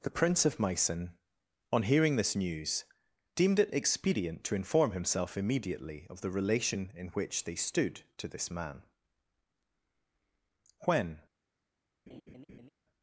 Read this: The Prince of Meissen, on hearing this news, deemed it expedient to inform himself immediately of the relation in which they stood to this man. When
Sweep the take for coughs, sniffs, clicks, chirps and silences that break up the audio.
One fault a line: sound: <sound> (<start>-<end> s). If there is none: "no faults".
sound: laugh (12.1-12.7 s)